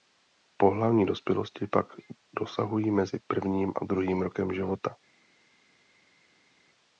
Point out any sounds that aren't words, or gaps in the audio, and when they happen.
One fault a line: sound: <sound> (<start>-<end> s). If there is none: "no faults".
no faults